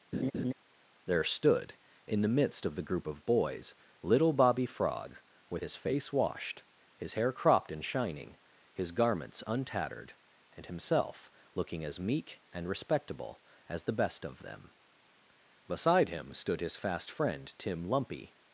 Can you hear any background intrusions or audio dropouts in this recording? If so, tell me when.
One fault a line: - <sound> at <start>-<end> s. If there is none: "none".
- laugh at 0.1-0.5 s